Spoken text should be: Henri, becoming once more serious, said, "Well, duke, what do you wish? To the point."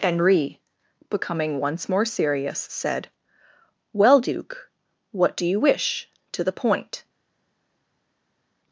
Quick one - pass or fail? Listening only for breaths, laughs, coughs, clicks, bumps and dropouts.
pass